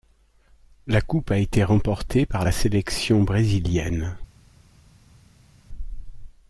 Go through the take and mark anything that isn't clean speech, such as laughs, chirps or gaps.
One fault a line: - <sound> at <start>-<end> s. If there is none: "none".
none